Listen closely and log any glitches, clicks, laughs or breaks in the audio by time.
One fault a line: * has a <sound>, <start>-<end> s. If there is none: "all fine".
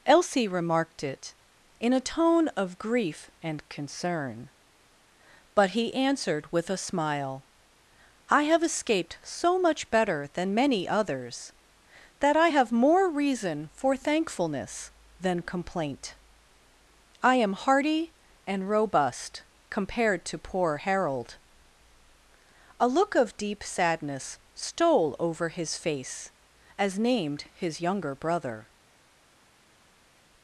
all fine